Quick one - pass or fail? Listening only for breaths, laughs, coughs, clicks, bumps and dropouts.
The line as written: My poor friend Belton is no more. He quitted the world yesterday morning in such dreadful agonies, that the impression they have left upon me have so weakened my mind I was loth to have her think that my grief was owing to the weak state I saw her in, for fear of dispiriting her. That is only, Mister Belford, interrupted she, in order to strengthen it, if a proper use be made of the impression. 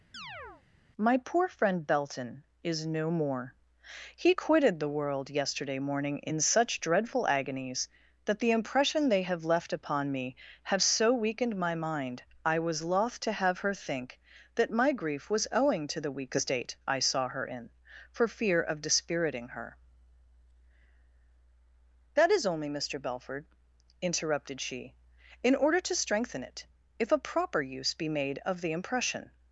fail